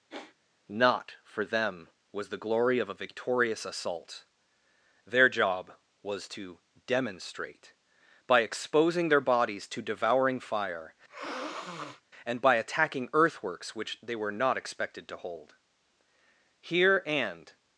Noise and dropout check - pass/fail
fail